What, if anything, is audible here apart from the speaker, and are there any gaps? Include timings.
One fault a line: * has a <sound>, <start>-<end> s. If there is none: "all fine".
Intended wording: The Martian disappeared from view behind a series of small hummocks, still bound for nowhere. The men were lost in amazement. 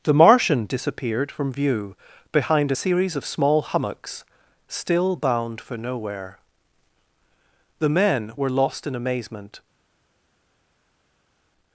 all fine